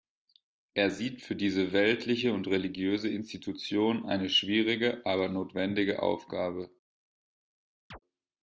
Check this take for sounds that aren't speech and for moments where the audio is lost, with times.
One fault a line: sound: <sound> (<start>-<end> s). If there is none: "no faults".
sound: chirp (7.9-8.0 s)